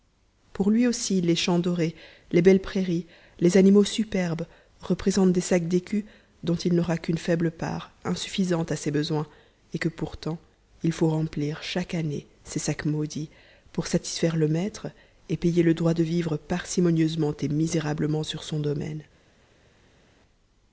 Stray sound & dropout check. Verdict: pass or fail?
pass